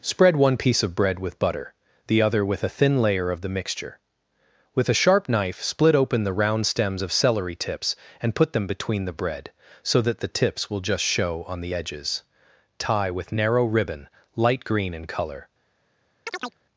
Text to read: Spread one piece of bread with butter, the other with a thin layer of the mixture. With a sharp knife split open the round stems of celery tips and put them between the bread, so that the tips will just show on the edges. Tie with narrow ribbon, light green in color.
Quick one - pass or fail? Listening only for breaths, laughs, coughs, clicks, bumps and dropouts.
fail